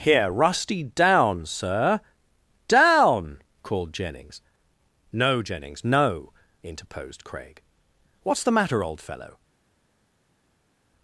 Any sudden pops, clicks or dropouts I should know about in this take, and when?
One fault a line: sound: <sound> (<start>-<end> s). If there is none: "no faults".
no faults